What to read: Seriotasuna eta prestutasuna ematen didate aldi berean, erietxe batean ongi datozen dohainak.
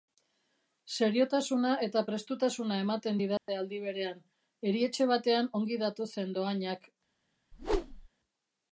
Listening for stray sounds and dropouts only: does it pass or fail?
fail